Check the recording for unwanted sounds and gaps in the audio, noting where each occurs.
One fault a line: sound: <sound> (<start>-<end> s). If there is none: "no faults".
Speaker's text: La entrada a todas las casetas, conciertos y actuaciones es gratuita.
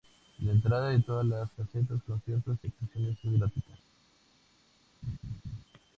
sound: laugh (5.0-5.6 s)